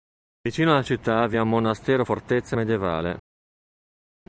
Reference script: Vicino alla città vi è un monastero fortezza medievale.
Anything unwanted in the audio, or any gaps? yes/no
no